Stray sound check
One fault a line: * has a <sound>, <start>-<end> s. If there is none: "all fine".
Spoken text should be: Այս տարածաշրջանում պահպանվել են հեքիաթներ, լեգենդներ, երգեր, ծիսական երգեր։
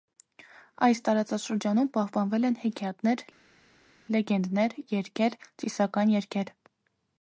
all fine